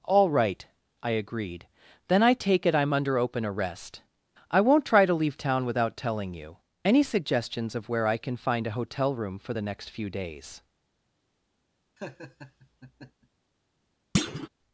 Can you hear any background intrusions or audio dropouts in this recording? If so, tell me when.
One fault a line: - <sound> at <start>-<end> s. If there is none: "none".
- laugh at 12.0-13.3 s
- thud at 14.1-14.5 s